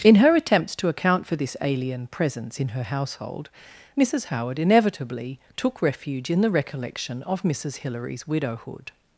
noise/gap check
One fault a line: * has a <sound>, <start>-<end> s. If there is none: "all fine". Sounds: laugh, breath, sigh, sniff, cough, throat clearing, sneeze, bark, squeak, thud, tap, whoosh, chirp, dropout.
all fine